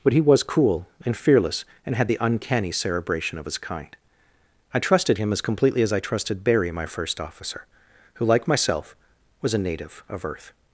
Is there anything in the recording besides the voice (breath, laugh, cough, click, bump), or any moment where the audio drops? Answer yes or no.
no